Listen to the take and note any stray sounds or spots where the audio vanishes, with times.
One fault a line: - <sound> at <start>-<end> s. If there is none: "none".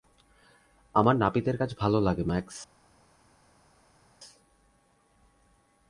none